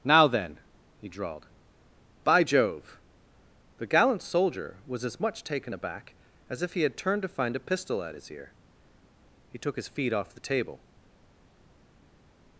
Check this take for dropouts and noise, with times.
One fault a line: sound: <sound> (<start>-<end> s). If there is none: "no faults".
no faults